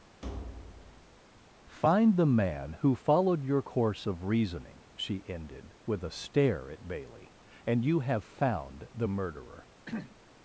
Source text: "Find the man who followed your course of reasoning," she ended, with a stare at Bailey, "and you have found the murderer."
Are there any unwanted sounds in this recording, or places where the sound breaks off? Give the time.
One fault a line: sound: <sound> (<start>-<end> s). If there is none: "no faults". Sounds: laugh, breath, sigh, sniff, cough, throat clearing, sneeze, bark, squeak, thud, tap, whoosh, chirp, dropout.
sound: thud (0.2-1.2 s)
sound: throat clearing (9.9-10.2 s)